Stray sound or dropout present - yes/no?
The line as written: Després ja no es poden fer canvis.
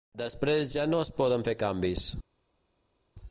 no